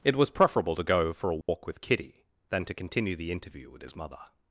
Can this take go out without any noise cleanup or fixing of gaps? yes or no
no